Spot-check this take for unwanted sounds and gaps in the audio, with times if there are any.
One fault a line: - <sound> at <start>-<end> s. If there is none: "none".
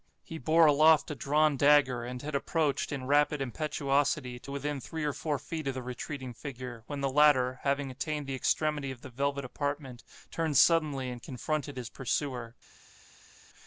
none